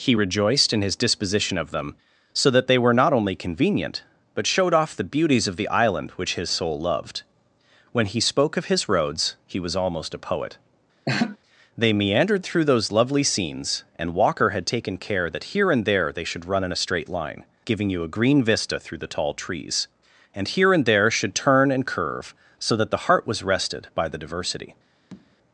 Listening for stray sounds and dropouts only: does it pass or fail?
fail